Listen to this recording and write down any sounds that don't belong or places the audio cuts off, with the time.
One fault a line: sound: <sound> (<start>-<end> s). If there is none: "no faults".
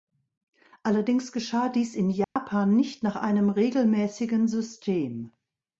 sound: dropout (2.2-2.4 s)